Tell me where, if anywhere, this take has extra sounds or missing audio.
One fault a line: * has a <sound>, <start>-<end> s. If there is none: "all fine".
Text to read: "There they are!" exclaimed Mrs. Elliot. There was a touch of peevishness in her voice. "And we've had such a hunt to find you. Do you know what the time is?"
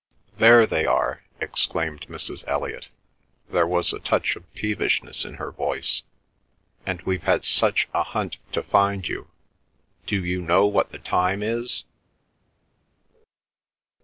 all fine